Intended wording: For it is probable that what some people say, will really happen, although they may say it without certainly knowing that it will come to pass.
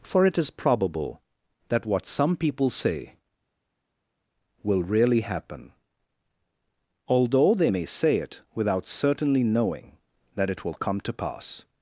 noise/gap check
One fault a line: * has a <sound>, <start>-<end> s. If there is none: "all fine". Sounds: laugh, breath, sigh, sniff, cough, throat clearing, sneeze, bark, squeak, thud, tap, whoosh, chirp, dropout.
all fine